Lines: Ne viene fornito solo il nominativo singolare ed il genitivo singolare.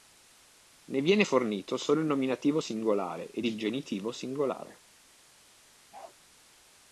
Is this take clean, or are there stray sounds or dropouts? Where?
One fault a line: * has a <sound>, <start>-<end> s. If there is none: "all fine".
* has a bark, 5.9-6.2 s